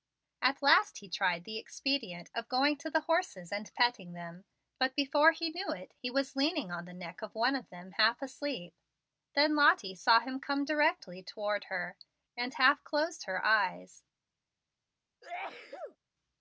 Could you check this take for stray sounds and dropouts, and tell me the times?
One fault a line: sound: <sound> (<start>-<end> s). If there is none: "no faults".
sound: sneeze (15.2-16.0 s)